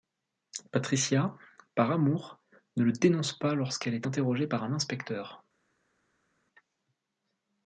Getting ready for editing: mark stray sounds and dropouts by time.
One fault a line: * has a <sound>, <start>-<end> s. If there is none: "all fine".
all fine